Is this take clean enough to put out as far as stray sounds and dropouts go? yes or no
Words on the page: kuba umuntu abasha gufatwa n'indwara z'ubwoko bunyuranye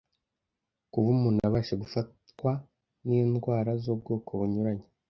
yes